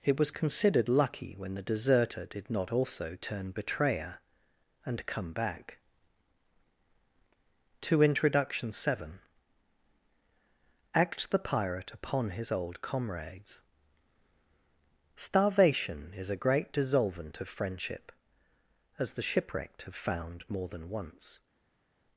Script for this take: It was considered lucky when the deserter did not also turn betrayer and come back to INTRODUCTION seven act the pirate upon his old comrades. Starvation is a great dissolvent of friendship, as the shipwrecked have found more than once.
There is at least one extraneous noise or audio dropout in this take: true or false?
false